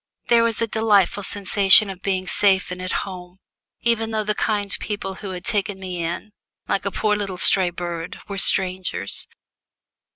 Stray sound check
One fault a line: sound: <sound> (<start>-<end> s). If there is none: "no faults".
no faults